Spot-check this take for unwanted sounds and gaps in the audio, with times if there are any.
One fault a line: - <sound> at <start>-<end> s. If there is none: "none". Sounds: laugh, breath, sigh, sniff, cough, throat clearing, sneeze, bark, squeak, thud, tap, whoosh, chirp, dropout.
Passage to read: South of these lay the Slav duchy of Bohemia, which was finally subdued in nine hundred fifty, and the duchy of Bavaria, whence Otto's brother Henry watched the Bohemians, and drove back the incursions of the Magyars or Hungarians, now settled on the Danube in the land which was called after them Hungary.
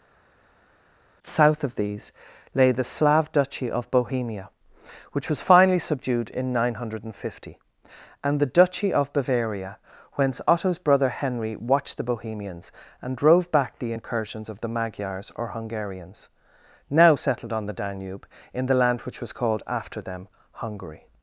none